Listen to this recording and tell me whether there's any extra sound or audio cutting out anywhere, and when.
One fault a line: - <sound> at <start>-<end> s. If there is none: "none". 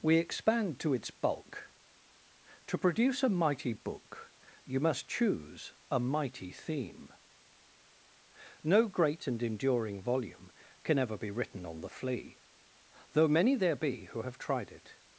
none